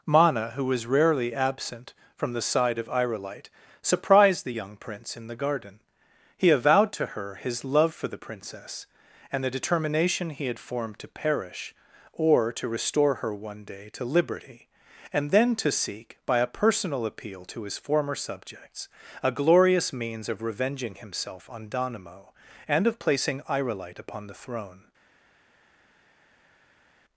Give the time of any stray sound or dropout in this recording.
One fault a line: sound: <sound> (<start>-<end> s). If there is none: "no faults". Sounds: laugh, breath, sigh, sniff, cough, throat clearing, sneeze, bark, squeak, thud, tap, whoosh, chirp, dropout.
no faults